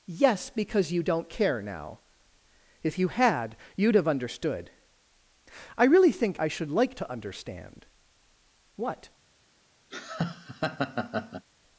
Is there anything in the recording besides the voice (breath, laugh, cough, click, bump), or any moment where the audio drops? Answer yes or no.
yes